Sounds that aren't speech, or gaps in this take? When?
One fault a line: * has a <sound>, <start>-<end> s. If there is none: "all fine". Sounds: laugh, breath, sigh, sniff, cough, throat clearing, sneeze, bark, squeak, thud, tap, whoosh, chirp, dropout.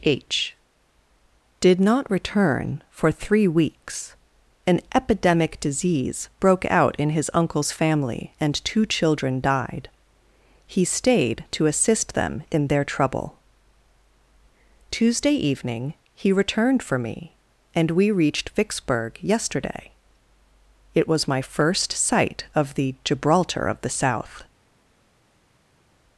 all fine